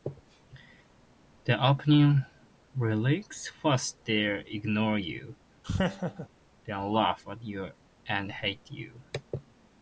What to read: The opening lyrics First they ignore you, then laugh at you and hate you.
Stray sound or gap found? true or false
true